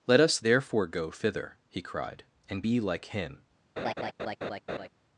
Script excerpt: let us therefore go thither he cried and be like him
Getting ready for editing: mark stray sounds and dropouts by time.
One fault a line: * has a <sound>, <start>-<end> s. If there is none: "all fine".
* has a laugh, 3.8-4.9 s